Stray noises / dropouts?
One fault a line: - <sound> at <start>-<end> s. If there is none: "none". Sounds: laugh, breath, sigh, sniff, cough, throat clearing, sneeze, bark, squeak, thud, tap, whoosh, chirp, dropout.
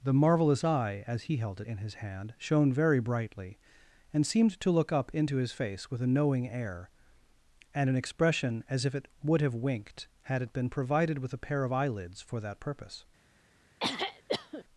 - throat clearing at 13.8-14.6 s